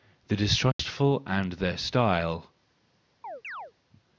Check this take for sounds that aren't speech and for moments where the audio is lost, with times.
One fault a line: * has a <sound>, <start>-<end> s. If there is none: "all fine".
* has a dropout, 0.7-0.8 s
* has a chirp, 3.2-3.7 s